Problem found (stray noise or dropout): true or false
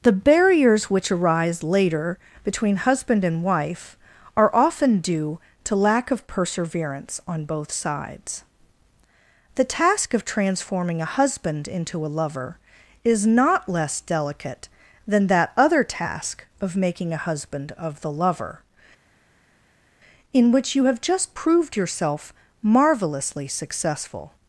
false